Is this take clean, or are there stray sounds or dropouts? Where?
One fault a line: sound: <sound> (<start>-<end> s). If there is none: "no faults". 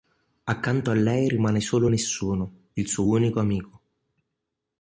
no faults